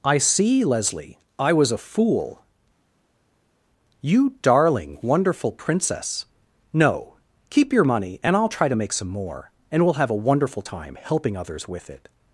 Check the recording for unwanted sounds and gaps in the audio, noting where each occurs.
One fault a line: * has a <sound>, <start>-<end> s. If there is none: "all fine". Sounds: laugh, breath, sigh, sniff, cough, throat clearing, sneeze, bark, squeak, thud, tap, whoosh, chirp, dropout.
all fine